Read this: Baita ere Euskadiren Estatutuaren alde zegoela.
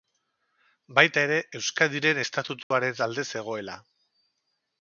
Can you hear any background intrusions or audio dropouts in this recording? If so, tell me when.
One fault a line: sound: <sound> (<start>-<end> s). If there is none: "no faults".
sound: dropout (2.6-2.7 s)